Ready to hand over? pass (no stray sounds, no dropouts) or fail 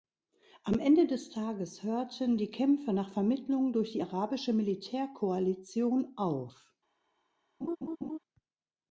fail